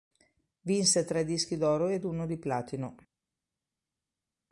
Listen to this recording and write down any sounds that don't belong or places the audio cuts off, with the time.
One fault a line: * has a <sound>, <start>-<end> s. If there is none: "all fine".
all fine